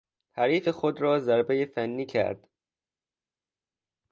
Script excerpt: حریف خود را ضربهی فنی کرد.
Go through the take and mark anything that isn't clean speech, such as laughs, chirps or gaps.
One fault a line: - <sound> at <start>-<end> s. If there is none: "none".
none